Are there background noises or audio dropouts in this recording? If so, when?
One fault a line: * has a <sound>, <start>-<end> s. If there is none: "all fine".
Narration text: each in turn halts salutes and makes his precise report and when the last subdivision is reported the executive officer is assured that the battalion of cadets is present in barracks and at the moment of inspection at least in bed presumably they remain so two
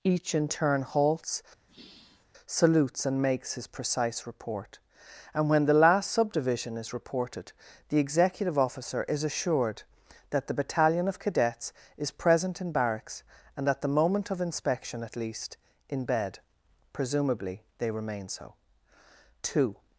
* has a sigh, 1.7-2.3 s